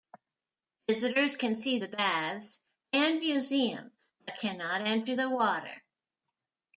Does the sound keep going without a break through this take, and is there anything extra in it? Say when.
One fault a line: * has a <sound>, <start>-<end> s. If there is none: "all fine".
all fine